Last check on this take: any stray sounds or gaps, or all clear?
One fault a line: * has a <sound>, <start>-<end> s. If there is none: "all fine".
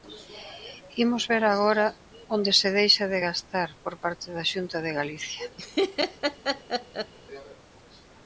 * has a laugh, 5.6-7.1 s